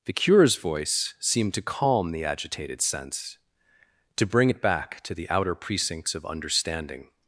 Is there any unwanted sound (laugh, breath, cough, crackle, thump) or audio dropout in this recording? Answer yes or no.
no